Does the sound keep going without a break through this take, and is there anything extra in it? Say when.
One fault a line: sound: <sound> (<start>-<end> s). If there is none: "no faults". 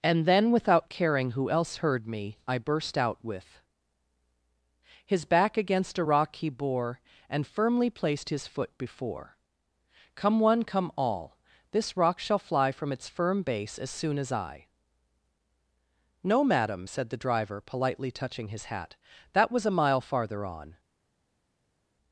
no faults